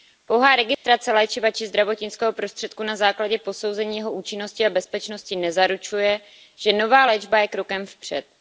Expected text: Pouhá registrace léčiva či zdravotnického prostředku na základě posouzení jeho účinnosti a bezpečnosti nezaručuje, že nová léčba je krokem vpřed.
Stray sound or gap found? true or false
true